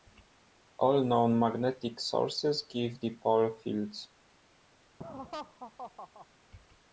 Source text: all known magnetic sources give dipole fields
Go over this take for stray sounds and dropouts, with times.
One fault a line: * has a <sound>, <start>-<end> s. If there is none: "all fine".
* has a laugh, 5.0-6.3 s